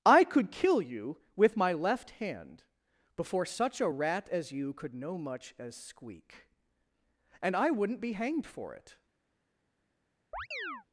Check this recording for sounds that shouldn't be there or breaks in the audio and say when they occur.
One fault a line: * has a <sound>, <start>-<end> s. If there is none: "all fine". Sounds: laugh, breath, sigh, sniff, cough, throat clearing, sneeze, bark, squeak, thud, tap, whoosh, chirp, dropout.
* has a chirp, 10.3-10.8 s